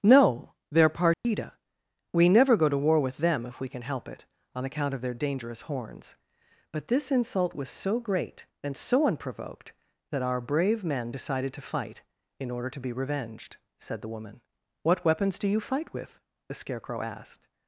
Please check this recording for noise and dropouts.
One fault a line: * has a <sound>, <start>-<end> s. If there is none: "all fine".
* has a dropout, 1.1-1.2 s